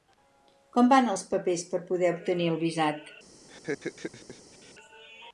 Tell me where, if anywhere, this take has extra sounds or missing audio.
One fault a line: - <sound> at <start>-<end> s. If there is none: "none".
- laugh at 3.5-4.7 s